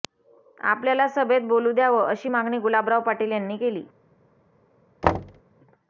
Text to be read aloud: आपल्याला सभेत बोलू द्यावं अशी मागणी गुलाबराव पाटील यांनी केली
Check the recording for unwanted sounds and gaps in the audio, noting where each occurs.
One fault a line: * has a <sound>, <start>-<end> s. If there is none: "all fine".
* has a thud, 5.0-5.4 s